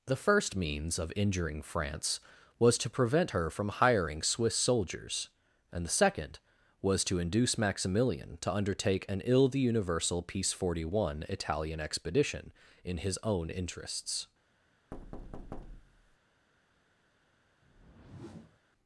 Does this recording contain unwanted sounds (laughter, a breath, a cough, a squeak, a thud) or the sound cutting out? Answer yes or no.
yes